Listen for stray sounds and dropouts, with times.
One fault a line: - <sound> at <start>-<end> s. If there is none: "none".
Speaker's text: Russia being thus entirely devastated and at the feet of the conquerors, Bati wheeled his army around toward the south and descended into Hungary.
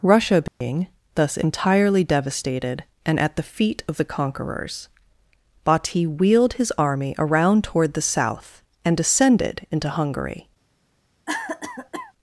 - dropout at 0.5-0.6 s
- cough at 11.3-12.1 s